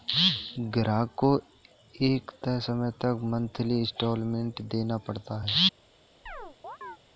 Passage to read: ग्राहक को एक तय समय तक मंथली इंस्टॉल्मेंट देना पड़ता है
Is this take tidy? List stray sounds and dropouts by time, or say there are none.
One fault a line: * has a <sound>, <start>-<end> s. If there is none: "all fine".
* has a chirp, 6.3-7.0 s